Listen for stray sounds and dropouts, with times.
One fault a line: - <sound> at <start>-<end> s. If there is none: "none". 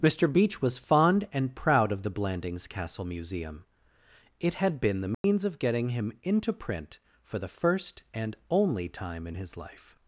- dropout at 5.1-5.2 s